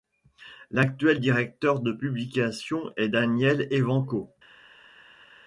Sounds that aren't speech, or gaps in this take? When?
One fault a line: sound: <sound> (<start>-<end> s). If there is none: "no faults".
no faults